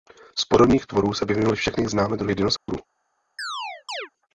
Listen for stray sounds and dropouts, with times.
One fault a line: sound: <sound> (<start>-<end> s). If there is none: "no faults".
sound: dropout (2.6-2.7 s)
sound: chirp (3.4-4.1 s)